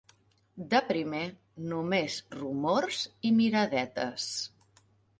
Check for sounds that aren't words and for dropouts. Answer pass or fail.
pass